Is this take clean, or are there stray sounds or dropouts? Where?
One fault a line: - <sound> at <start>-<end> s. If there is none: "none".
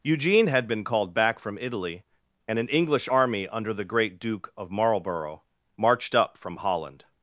none